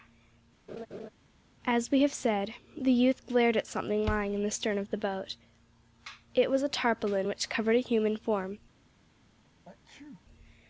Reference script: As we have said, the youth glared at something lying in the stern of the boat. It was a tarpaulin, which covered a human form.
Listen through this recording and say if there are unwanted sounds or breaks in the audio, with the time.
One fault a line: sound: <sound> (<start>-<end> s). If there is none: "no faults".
sound: laugh (0.7-1.1 s)
sound: sneeze (9.6-10.2 s)